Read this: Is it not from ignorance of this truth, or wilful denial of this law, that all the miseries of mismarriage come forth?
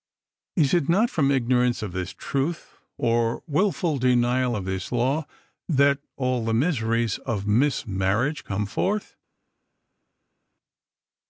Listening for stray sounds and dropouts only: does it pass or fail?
pass